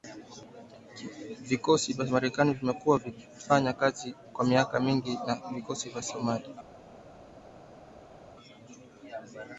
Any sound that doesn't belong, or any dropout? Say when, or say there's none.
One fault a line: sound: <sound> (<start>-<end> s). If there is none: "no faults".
no faults